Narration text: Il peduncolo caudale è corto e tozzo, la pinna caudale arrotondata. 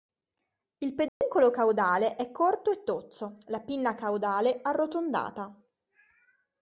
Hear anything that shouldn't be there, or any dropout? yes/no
yes